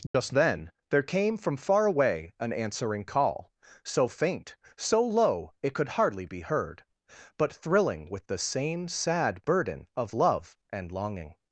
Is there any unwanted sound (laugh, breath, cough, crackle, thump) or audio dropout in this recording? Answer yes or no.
yes